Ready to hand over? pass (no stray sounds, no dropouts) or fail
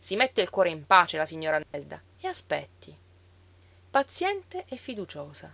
fail